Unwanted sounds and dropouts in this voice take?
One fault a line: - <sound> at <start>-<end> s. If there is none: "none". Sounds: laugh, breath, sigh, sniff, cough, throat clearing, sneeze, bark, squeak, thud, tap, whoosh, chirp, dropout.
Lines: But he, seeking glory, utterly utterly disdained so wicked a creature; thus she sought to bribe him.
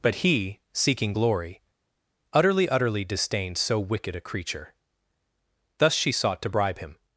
none